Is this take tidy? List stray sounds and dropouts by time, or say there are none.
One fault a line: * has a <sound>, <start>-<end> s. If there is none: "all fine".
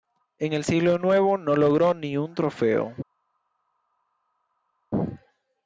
all fine